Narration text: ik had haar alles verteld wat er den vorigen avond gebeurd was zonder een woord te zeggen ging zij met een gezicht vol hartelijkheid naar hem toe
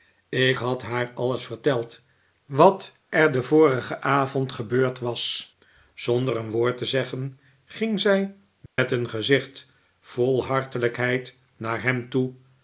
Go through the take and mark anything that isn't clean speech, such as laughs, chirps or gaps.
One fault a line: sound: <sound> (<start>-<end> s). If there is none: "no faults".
sound: dropout (8.7-8.8 s)